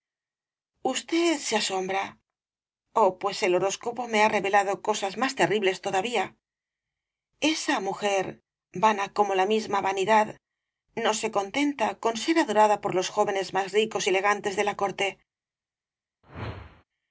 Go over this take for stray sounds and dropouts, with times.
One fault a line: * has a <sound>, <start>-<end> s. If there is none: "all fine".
* has a whoosh, 16.2-16.8 s